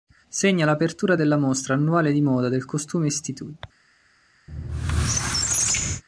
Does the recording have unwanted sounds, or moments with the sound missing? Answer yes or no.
yes